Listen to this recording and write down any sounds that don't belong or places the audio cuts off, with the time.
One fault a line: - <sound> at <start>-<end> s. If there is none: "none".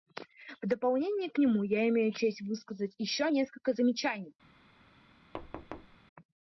- thud at 5.3-6.0 s